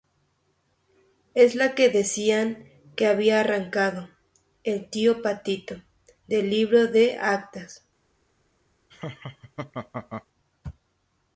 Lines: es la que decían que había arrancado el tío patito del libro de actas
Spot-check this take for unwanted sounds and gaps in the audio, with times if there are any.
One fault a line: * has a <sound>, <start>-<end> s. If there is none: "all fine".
* has a laugh, 8.9-10.3 s